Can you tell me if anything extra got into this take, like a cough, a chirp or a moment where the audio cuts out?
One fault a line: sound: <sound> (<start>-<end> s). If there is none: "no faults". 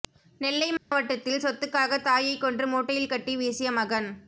sound: dropout (0.8-0.9 s)